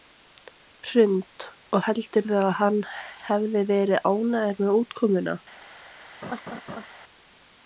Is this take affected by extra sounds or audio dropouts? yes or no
yes